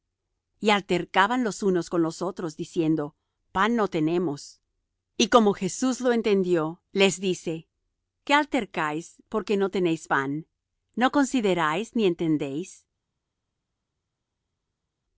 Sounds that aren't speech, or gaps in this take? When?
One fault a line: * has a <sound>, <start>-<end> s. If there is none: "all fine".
all fine